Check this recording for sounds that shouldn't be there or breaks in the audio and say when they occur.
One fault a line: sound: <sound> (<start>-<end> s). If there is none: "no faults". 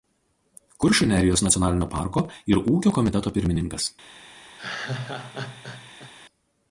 sound: laugh (4.6-6.1 s)